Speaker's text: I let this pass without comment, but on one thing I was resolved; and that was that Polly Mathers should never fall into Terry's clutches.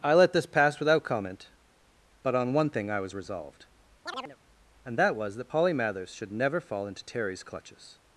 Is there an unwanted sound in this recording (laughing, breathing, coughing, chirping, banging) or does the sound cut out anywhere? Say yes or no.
yes